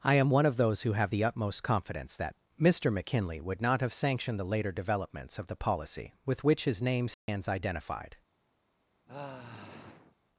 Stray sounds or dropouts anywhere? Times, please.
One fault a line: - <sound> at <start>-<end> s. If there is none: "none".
- dropout at 7.1-7.3 s
- sigh at 9.1-10.2 s